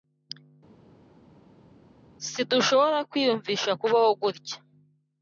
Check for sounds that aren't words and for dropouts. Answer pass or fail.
pass